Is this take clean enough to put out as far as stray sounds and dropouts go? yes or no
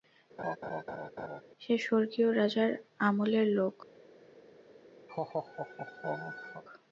no